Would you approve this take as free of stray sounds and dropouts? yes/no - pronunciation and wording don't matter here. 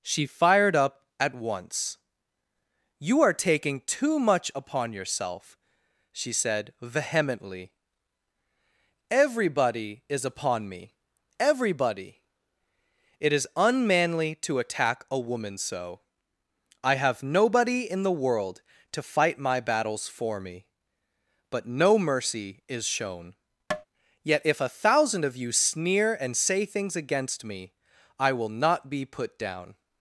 no